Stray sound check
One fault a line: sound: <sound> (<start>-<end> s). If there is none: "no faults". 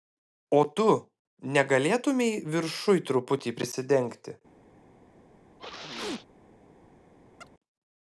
sound: sneeze (5.6-6.3 s)
sound: chirp (7.4-7.5 s)